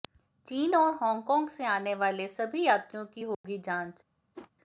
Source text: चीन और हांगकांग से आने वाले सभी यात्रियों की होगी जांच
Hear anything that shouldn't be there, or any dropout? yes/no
yes